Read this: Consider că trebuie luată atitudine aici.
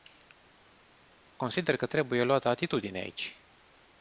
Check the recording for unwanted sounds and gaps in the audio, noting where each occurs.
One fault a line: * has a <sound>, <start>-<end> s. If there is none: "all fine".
all fine